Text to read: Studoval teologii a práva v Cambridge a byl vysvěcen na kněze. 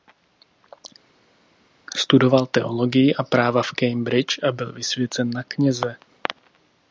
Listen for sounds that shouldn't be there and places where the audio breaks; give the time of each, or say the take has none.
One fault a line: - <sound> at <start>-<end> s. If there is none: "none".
none